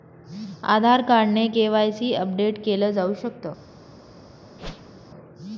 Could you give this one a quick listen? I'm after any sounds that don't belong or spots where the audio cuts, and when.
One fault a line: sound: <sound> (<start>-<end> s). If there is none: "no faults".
sound: whoosh (4.6-4.9 s)